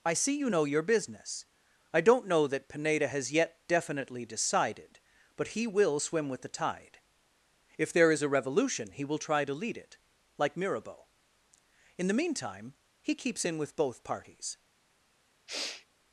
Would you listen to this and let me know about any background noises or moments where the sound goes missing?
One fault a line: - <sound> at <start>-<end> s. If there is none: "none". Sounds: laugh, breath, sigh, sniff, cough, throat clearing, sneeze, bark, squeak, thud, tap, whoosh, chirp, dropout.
- sniff at 15.5-15.9 s